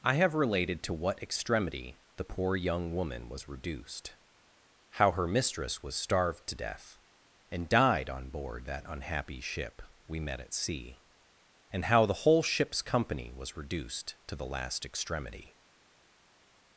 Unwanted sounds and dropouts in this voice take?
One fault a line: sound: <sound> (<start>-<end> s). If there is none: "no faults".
no faults